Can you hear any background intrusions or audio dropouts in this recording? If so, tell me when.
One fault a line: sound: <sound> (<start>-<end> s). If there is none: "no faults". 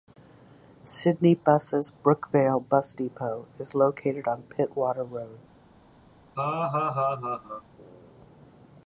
sound: laugh (6.4-7.6 s)